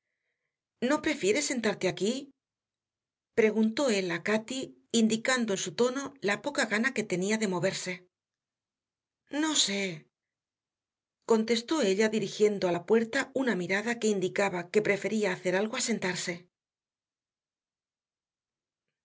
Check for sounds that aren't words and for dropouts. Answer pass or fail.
pass